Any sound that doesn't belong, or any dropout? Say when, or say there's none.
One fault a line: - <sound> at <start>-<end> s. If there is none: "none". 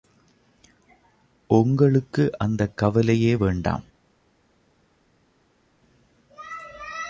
none